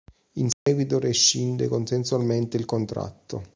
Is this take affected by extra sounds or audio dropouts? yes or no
yes